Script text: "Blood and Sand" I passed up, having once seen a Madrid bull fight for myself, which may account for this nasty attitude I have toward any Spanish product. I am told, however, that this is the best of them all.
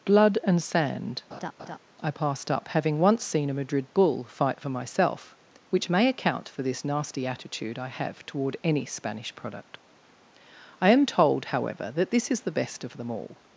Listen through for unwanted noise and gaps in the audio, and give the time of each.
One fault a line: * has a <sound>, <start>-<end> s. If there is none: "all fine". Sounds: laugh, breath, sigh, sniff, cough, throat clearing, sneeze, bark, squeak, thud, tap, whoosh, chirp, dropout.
* has a laugh, 1.3-1.8 s